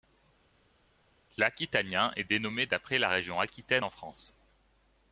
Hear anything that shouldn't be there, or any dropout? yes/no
no